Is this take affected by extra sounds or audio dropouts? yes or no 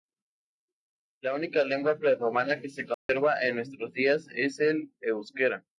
yes